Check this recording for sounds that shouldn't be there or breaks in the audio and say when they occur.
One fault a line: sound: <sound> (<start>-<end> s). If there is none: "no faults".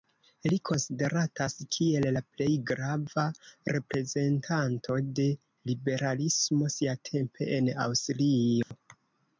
sound: dropout (8.6-8.7 s)